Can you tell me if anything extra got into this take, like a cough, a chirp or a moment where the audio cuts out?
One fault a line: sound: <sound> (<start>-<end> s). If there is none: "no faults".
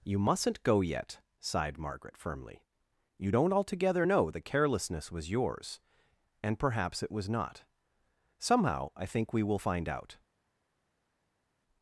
no faults